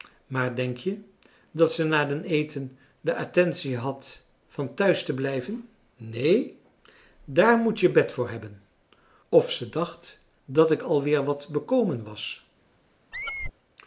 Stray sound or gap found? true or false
true